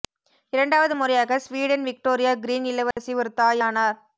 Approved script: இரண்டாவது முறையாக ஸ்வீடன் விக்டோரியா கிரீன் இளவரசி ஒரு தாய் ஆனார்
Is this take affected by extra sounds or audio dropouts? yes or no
yes